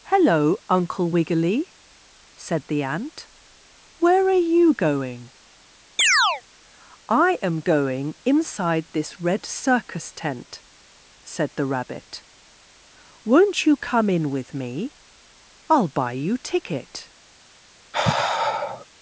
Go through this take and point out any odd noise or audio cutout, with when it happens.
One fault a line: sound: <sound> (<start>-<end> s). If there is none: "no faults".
sound: chirp (6.0-6.4 s)
sound: sigh (17.9-18.9 s)